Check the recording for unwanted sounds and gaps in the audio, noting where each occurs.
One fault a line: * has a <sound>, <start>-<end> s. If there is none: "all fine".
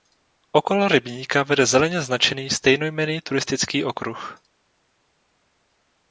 all fine